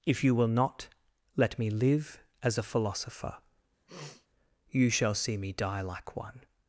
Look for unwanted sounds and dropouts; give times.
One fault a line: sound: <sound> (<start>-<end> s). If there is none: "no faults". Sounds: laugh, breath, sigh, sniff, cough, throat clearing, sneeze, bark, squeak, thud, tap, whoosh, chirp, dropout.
sound: sniff (3.9-4.3 s)